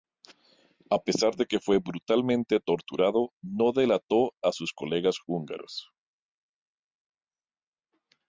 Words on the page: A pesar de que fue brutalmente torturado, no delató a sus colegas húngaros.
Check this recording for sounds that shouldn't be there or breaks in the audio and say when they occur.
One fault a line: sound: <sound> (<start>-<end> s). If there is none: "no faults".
no faults